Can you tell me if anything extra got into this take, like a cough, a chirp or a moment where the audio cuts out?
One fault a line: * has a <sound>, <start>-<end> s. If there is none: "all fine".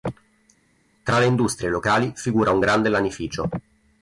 all fine